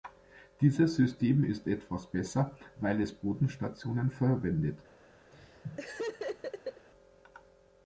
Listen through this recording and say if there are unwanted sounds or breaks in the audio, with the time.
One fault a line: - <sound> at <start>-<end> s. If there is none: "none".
- laugh at 5.3-6.9 s